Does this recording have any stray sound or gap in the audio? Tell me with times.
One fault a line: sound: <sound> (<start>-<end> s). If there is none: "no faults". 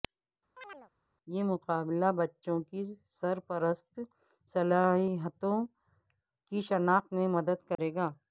sound: chirp (0.6-0.9 s)
sound: dropout (7.8-7.8 s)